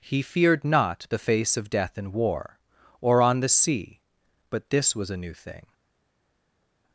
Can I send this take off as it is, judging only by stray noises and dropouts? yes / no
yes